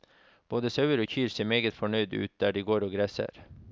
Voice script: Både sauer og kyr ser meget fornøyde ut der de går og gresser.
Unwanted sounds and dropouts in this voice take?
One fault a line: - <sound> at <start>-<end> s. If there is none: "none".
none